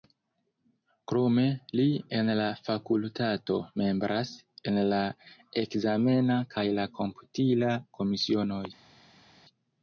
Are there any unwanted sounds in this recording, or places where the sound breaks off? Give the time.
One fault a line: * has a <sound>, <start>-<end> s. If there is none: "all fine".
all fine